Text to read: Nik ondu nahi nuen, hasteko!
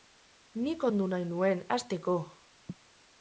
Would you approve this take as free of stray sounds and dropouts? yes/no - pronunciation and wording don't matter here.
yes